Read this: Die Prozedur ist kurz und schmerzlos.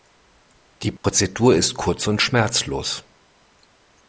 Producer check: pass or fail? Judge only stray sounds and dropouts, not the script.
fail